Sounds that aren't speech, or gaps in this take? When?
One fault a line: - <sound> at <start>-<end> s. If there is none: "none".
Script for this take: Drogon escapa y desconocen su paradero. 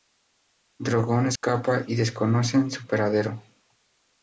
- dropout at 1.4-1.4 s